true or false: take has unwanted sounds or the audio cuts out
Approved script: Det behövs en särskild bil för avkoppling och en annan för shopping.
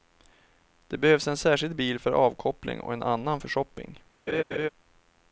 true